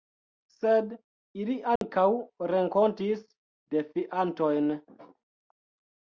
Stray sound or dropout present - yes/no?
yes